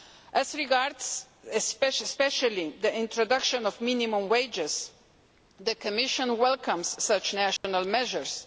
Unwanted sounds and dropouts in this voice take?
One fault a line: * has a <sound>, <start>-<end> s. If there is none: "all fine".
* has a dropout, 7.6-7.6 s